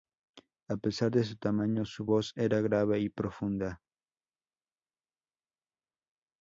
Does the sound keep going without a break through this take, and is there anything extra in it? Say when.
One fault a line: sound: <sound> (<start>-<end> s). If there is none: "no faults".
no faults